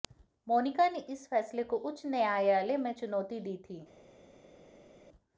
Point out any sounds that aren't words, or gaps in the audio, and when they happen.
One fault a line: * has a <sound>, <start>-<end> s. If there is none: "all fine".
all fine